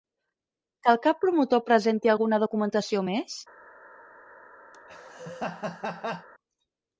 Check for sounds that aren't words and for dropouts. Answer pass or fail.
fail